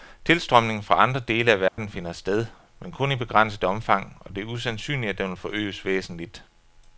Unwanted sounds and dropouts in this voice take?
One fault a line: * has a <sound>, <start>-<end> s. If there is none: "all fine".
* has a dropout, 1.7-1.8 s